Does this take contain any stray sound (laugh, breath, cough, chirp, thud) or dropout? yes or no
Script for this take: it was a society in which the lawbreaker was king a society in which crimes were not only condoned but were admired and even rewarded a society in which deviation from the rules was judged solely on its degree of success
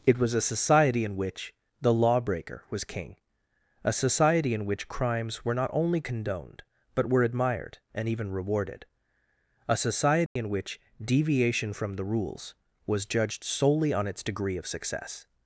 yes